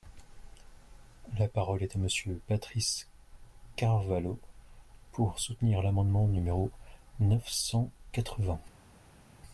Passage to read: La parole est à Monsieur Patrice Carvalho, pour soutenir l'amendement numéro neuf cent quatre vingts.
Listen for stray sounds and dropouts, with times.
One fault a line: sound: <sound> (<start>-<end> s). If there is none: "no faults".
no faults